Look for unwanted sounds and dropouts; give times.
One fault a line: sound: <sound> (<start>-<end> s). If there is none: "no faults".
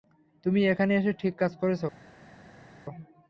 no faults